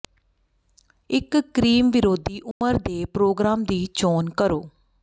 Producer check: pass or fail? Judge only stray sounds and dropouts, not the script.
fail